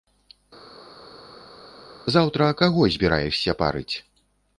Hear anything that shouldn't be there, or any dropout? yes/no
no